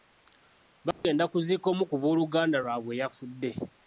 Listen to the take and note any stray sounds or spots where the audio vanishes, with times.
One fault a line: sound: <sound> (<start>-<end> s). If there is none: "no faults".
sound: dropout (0.9-1.0 s)